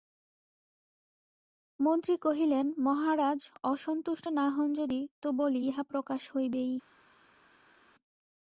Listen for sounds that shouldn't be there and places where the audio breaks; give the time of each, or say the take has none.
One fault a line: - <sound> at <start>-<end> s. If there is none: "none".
none